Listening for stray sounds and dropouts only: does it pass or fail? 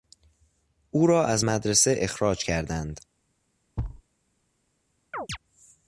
fail